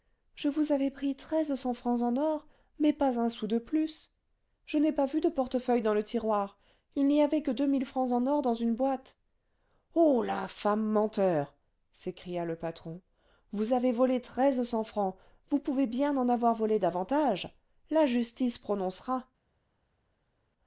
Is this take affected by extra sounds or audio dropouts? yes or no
no